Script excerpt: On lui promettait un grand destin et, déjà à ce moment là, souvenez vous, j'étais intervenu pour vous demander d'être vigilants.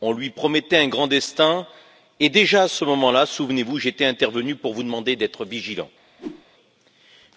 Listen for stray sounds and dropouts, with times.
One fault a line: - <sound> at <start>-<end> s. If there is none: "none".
- whoosh at 6.2-6.5 s